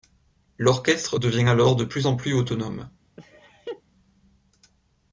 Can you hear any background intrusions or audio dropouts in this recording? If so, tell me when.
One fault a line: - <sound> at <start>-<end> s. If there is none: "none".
- laugh at 3.2-3.8 s